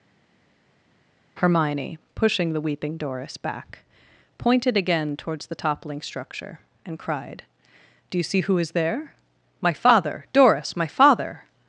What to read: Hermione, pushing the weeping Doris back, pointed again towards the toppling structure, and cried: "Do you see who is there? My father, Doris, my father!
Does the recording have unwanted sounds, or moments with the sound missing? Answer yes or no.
no